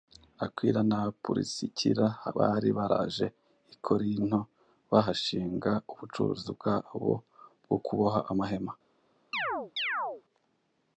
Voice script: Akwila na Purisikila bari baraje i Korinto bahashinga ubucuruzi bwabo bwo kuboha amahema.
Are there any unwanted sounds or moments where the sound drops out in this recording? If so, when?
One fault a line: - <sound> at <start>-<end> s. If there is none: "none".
- chirp at 9.3-10.2 s